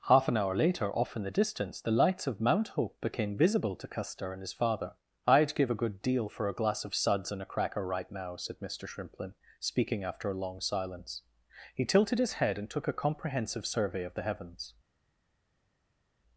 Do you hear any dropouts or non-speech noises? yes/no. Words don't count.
no